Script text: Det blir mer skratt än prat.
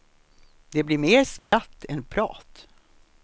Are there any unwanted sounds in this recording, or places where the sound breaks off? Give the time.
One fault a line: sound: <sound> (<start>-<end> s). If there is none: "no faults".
sound: dropout (1.4-1.5 s)